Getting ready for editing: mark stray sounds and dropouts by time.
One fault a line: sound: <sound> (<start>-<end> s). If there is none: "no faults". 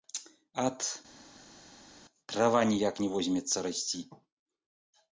no faults